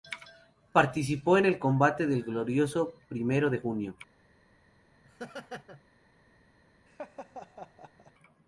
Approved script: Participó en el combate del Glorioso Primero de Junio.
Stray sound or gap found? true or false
true